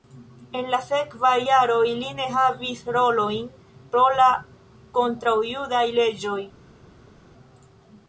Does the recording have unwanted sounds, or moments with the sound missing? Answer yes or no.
no